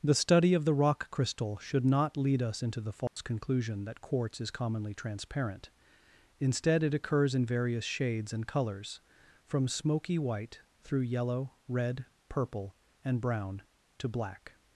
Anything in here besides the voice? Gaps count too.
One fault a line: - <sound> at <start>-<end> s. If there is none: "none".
- dropout at 3.1-3.2 s